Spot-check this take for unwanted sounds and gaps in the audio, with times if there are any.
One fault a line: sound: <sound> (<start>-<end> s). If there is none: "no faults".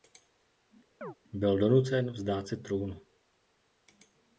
sound: chirp (1.0-1.1 s)